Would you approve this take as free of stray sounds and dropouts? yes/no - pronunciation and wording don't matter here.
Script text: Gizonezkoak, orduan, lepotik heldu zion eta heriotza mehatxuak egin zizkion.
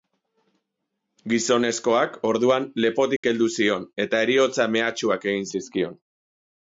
no